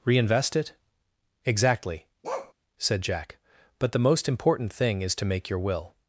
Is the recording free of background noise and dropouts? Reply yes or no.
no